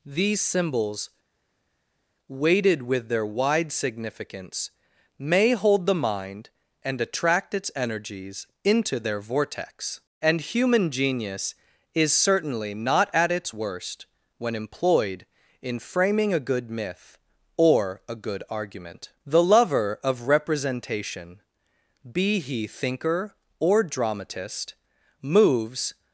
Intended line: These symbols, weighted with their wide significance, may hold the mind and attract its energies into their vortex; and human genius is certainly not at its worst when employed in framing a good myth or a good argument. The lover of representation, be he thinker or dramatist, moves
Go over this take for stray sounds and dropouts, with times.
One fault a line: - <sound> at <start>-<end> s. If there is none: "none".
none